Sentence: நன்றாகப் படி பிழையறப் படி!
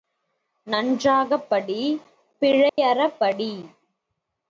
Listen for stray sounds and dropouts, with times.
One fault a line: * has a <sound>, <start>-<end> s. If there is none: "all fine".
* has a dropout, 2.7-2.8 s